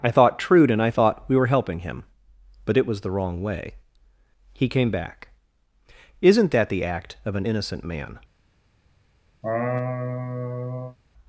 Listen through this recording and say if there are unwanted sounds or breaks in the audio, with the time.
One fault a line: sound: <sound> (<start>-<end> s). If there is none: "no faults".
sound: laugh (9.4-11.0 s)